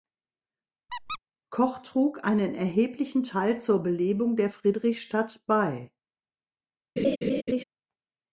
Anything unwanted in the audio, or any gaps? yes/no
yes